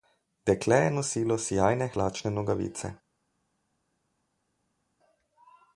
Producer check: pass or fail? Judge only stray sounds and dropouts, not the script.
pass